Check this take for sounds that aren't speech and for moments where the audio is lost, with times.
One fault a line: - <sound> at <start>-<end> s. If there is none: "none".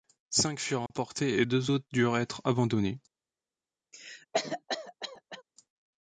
- dropout at 0.9-0.9 s
- cough at 3.9-5.4 s